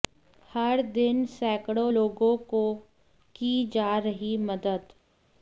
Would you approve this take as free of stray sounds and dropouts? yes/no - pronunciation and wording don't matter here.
yes